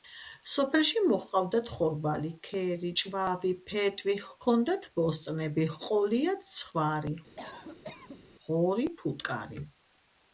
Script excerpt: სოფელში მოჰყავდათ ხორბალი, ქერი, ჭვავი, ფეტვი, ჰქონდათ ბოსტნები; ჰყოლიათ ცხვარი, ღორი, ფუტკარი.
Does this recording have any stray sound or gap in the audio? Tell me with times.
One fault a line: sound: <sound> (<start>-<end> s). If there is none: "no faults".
sound: cough (7.4-8.2 s)